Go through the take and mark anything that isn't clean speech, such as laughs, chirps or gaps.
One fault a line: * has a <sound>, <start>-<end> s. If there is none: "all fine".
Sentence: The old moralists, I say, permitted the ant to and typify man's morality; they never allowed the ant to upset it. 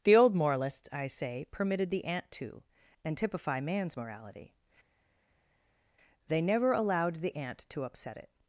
all fine